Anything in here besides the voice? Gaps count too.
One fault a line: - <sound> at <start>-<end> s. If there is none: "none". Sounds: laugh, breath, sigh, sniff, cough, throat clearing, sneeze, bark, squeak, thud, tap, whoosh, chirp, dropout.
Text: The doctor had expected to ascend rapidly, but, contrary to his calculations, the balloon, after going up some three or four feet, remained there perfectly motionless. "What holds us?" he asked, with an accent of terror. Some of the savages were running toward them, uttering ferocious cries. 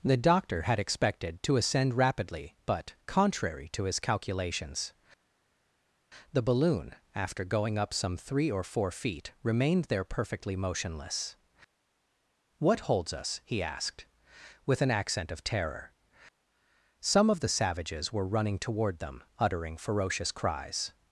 none